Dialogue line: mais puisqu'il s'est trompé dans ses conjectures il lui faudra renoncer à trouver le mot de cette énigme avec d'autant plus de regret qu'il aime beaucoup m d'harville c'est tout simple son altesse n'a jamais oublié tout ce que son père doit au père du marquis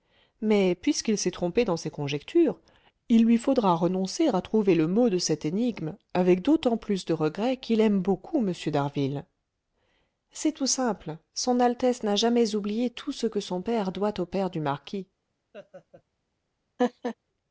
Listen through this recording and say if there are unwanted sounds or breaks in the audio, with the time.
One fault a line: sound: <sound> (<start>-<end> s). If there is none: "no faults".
sound: laugh (15.5-16.0 s)
sound: laugh (16.8-17.2 s)